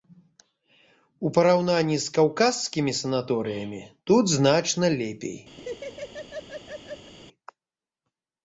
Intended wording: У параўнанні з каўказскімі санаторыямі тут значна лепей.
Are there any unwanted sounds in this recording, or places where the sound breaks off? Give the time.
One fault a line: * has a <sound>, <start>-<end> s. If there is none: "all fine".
* has a laugh, 5.6-7.1 s